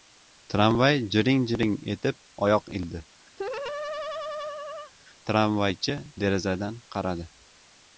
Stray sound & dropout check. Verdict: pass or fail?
fail